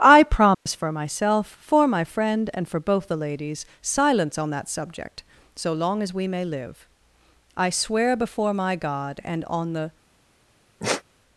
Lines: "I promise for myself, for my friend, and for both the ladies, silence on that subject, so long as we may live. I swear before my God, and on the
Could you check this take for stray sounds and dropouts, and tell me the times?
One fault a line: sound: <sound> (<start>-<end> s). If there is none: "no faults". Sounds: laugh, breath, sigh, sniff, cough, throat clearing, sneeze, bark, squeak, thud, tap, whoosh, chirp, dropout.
sound: dropout (0.5-0.7 s)
sound: sigh (10.8-11.0 s)